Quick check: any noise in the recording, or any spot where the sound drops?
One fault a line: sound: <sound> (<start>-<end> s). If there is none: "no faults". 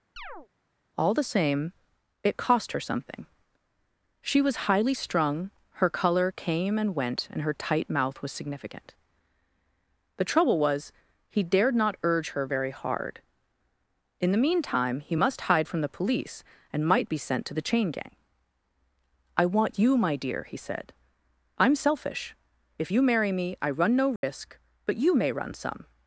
sound: chirp (0.2-0.5 s)
sound: dropout (24.2-24.2 s)